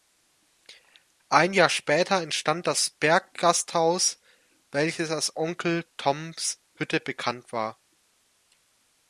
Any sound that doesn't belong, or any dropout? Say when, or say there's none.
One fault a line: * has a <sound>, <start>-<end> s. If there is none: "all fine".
all fine